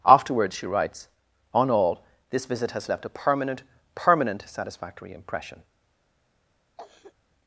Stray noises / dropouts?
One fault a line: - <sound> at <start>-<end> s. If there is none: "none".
- cough at 6.8-7.1 s